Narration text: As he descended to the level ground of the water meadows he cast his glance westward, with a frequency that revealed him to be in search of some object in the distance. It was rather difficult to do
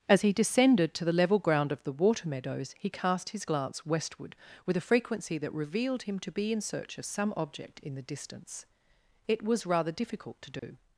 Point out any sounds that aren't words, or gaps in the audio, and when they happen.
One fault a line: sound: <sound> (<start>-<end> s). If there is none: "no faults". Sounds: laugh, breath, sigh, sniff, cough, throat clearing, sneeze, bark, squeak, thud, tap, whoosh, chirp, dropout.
sound: dropout (10.6-10.6 s)